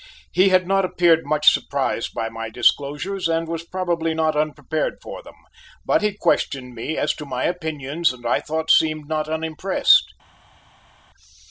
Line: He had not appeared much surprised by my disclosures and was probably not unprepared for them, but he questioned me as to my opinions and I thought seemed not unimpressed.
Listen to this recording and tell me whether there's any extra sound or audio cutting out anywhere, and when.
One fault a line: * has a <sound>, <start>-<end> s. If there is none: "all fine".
all fine